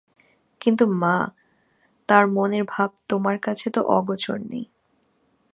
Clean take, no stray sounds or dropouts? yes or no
yes